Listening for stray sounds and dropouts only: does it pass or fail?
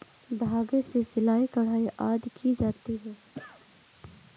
fail